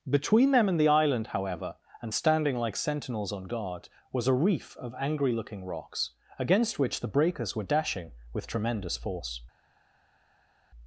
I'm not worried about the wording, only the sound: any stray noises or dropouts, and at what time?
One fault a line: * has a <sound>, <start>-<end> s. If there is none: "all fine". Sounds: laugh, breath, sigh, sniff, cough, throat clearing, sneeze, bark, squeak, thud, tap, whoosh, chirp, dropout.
all fine